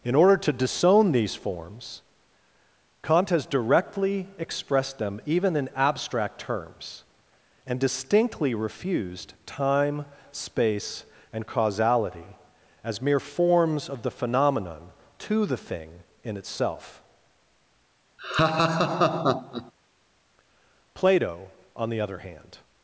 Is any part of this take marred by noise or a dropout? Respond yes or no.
yes